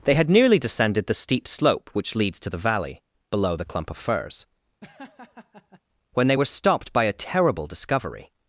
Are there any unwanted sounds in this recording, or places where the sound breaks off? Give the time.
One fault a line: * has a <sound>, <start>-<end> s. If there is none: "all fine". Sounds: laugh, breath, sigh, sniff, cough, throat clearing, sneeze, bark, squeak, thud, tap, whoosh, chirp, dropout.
* has a laugh, 4.8-5.8 s